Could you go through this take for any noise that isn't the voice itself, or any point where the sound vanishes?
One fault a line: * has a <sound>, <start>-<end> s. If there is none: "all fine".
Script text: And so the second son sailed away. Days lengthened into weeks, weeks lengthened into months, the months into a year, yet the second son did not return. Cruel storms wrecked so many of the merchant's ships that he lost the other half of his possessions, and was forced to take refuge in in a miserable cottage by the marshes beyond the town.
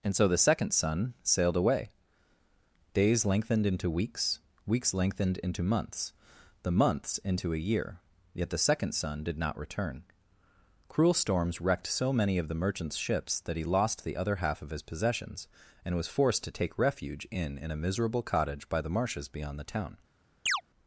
* has a chirp, 20.5-20.6 s